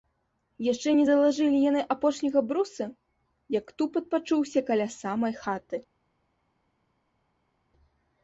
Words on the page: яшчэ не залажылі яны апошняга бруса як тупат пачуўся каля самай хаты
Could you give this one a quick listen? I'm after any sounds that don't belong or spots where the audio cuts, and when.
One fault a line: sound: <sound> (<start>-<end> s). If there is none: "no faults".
no faults